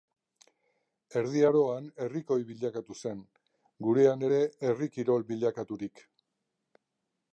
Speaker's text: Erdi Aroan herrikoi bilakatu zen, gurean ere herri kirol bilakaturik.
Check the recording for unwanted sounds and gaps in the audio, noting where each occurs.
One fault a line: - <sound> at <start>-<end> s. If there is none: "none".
none